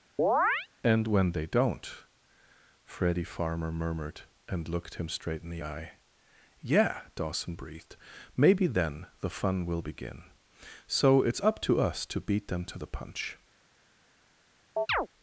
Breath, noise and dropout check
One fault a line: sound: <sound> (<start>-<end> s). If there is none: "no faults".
sound: chirp (0.2-0.7 s)
sound: chirp (14.8-15.1 s)